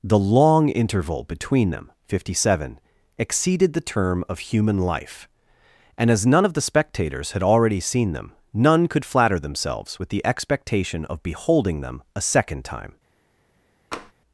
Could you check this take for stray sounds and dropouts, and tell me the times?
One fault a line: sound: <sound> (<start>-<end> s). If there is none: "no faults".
sound: tap (13.9-14.1 s)